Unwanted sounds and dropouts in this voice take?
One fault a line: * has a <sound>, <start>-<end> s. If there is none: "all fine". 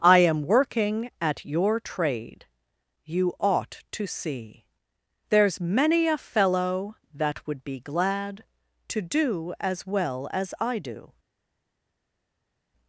all fine